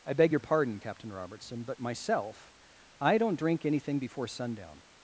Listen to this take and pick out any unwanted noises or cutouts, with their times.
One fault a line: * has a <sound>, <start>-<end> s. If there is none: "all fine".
all fine